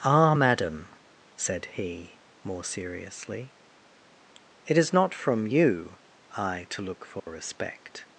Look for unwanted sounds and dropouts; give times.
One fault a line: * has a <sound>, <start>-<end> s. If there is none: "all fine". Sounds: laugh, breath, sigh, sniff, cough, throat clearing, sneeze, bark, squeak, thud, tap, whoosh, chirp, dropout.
* has a dropout, 7.2-7.3 s